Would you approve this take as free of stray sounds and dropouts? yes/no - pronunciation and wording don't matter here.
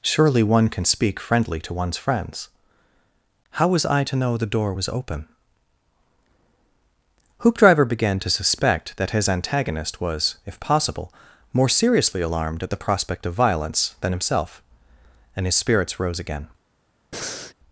no